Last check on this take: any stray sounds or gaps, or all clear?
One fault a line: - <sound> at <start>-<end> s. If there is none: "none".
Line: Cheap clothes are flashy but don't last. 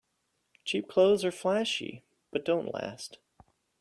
none